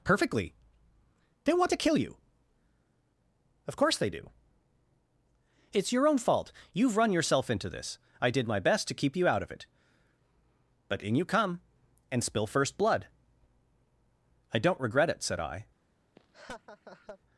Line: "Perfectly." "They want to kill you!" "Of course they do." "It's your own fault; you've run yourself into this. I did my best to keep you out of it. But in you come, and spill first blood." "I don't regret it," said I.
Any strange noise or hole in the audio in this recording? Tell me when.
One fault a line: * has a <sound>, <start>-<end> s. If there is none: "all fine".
* has a laugh, 16.2-17.2 s